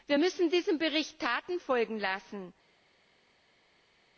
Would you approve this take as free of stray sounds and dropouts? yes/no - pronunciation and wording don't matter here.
yes